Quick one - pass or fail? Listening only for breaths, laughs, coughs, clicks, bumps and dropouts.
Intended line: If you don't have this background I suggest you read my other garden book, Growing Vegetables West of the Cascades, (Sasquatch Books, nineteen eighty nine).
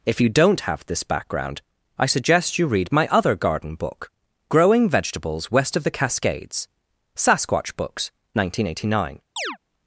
fail